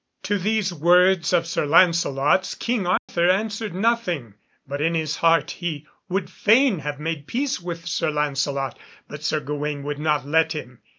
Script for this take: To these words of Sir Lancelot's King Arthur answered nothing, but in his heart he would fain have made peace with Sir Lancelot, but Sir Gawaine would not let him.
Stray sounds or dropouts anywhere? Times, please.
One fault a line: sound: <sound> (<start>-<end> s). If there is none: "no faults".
sound: dropout (3.0-3.1 s)